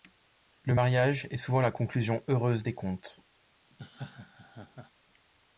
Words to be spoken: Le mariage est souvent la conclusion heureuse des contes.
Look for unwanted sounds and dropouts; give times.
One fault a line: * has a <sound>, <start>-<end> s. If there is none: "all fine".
* has a laugh, 3.7-4.9 s